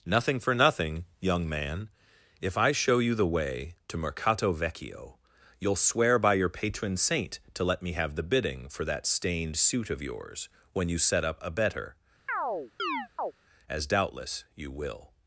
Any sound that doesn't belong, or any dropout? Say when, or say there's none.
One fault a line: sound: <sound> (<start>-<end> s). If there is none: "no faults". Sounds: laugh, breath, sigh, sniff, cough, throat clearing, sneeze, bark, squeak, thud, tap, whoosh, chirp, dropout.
sound: chirp (12.3-13.3 s)